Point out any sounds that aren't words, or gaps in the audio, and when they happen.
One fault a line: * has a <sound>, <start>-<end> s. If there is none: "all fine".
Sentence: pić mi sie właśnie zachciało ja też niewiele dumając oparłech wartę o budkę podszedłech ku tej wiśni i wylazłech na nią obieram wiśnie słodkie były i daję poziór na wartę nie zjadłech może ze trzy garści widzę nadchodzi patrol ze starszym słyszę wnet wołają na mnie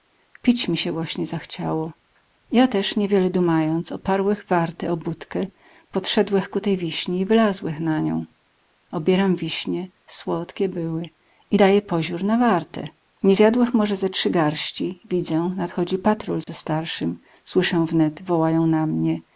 * has a dropout, 16.4-16.5 s